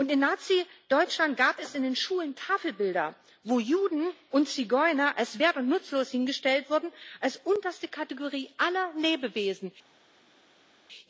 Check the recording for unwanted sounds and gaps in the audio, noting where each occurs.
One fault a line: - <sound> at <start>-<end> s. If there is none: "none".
none